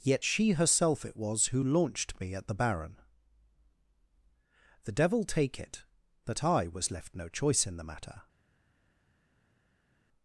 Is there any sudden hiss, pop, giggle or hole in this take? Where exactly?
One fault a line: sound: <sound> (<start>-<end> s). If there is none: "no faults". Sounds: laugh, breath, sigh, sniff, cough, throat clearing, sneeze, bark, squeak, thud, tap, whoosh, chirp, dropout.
no faults